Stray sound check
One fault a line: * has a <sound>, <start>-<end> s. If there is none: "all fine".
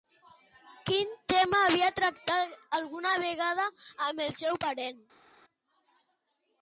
all fine